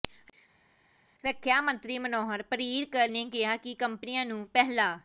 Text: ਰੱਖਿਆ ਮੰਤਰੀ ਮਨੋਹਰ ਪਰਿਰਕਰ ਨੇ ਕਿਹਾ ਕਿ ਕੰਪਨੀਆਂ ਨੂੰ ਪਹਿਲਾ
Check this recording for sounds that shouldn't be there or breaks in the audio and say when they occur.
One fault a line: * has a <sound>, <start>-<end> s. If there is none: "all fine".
all fine